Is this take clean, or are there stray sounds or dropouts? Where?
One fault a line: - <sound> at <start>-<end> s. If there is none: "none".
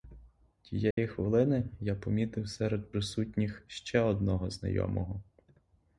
- dropout at 0.9-1.0 s